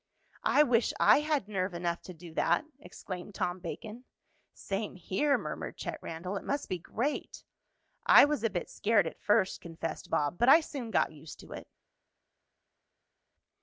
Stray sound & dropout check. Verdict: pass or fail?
pass